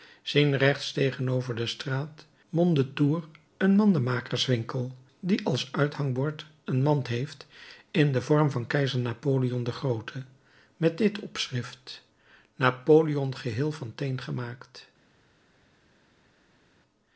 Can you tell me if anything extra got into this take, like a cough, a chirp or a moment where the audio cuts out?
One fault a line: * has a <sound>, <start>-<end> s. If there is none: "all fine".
all fine